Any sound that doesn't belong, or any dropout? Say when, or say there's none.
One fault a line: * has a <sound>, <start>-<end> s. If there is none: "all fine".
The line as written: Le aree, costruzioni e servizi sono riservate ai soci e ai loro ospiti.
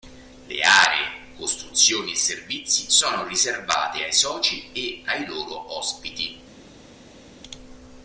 all fine